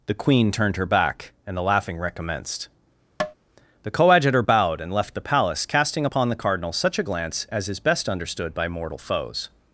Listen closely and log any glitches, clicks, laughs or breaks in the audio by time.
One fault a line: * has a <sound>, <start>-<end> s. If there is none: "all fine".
* has a tap, 3.2-3.3 s